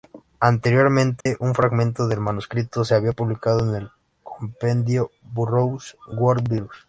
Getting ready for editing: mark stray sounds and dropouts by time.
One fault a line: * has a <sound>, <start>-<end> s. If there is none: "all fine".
* has a dropout, 1.2-1.3 s